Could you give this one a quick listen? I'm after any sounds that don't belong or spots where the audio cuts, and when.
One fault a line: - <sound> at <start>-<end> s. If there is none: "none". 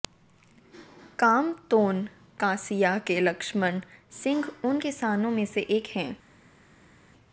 none